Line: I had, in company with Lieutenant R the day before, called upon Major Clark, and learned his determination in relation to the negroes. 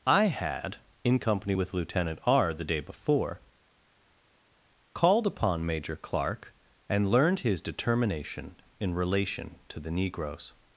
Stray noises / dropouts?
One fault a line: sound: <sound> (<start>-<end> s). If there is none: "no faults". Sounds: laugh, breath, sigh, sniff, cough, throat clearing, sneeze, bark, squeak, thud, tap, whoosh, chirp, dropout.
no faults